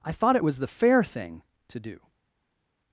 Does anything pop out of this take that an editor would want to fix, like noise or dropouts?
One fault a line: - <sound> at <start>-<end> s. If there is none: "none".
none